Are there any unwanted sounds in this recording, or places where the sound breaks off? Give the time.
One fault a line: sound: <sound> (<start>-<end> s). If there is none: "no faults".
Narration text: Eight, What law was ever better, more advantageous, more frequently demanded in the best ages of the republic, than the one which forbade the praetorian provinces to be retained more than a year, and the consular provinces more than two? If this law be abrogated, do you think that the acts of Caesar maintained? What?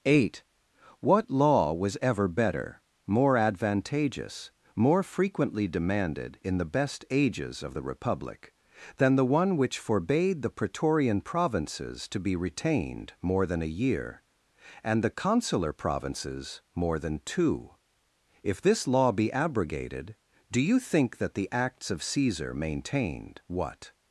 no faults